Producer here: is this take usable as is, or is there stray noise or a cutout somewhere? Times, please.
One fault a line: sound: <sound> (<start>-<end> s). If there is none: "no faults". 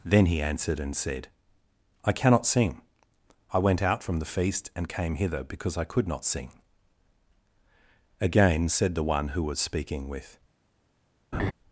sound: laugh (11.3-11.5 s)